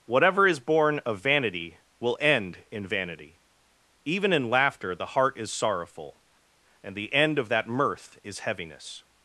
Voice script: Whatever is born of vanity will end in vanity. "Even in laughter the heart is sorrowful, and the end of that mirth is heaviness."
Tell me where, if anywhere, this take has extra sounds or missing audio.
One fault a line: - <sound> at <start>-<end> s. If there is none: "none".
none